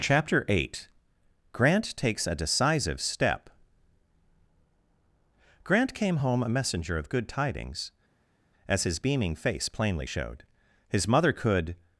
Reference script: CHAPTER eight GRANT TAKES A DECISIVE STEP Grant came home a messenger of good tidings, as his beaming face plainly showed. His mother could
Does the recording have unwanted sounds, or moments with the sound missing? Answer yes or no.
no